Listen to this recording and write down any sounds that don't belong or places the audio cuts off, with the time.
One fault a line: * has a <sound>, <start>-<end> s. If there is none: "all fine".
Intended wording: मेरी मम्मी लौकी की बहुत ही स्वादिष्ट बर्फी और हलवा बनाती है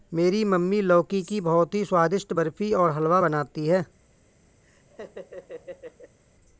* has a laugh, 4.6-6.2 s